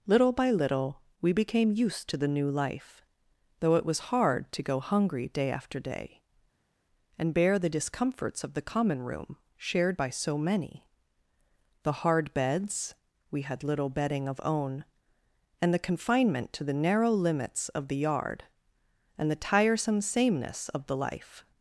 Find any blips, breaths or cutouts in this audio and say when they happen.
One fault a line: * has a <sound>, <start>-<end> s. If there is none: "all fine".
all fine